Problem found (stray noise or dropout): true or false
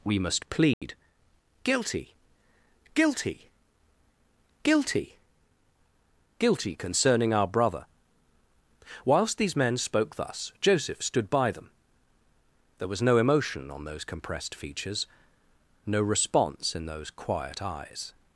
true